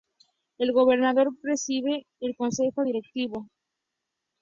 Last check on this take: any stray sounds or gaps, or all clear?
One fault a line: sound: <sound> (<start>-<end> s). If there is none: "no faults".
no faults